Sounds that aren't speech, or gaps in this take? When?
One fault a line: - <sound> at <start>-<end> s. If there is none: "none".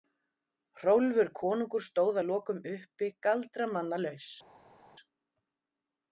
none